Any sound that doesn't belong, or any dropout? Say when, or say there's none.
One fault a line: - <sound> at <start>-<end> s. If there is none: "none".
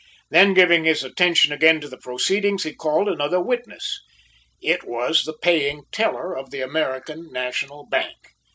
none